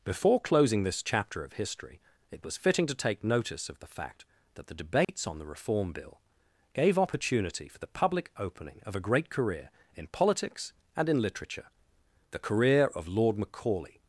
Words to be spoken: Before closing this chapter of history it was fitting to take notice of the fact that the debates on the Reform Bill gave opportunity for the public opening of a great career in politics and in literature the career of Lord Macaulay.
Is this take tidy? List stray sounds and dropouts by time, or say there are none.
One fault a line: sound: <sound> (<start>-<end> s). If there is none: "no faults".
sound: dropout (5.0-5.1 s)